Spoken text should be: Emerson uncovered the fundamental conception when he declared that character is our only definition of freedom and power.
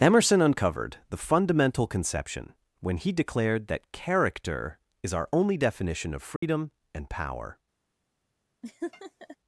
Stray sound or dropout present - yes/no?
yes